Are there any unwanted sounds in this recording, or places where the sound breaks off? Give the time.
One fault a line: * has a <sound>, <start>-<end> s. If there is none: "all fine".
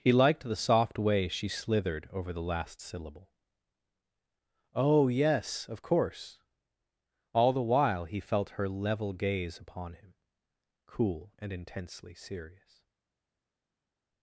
all fine